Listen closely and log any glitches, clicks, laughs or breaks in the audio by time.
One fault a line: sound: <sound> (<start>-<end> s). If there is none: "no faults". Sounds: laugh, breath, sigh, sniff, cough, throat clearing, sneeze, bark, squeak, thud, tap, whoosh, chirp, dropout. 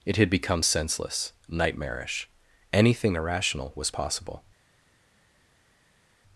no faults